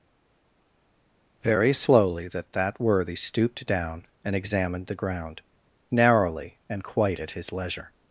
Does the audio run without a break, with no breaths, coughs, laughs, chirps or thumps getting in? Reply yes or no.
yes